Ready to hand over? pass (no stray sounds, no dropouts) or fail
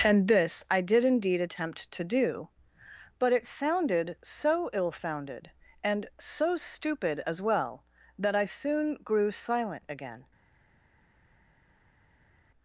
pass